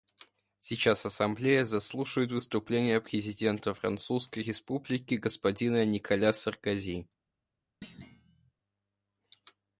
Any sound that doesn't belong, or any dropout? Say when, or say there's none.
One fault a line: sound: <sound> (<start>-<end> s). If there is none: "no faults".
sound: thud (7.8-8.5 s)